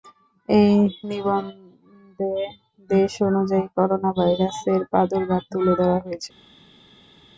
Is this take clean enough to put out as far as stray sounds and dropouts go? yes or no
yes